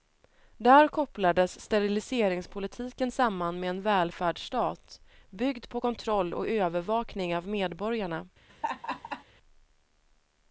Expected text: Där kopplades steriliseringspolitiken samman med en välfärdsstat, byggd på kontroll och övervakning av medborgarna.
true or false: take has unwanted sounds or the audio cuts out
true